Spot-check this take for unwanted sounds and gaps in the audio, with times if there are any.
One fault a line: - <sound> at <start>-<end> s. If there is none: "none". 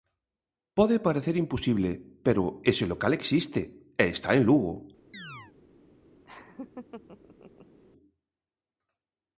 - chirp at 5.1-5.5 s
- laugh at 6.2-7.8 s